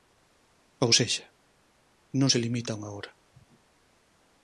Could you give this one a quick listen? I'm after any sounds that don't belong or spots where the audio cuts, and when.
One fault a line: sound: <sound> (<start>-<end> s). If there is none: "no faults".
no faults